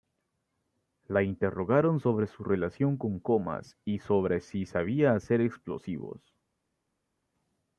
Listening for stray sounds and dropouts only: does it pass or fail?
pass